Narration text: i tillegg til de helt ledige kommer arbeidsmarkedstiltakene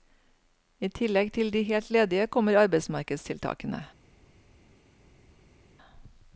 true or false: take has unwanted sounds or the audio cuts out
false